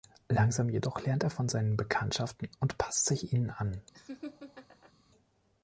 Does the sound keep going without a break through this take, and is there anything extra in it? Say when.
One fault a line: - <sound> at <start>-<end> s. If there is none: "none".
- laugh at 3.9-4.9 s